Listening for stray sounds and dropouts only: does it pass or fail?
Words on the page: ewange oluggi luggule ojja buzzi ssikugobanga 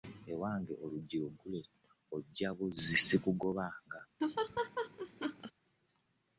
fail